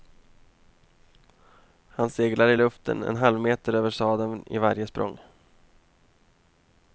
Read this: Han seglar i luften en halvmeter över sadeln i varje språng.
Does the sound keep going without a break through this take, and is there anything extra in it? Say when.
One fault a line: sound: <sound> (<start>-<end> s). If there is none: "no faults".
no faults